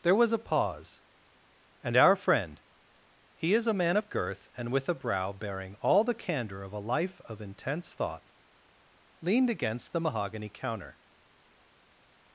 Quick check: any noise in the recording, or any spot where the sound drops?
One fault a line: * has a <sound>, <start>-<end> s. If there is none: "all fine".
all fine